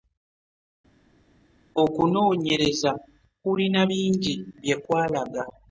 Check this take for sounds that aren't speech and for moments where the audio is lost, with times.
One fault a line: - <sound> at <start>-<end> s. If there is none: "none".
none